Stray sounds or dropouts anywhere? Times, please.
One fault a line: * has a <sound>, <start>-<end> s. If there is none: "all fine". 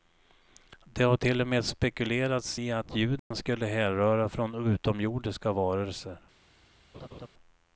* has a dropout, 3.2-3.3 s
* has a laugh, 6.9-7.3 s